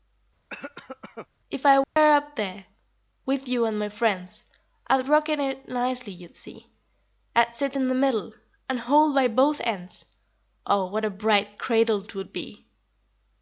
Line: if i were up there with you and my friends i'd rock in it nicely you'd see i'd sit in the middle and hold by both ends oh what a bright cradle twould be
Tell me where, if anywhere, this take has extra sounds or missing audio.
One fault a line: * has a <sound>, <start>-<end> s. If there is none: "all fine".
* has a cough, 0.5-1.3 s
* has a dropout, 1.8-2.0 s